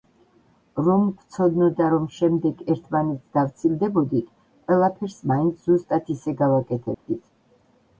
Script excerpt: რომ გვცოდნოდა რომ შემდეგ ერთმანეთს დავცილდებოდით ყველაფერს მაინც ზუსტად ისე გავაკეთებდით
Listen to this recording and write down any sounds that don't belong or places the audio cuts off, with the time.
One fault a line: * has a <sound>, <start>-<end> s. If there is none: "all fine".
* has a dropout, 6.9-7.1 s